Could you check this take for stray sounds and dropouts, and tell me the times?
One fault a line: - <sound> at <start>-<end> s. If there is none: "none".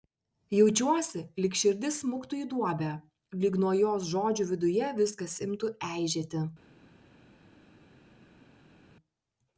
none